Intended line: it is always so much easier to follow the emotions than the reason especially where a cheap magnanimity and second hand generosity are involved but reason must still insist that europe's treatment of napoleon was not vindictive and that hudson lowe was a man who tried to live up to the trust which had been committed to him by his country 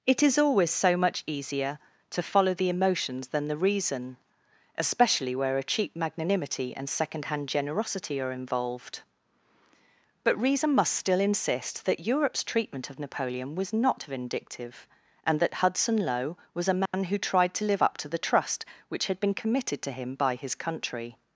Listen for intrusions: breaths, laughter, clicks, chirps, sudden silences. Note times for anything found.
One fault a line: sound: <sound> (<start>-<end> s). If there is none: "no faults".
sound: dropout (16.9-16.9 s)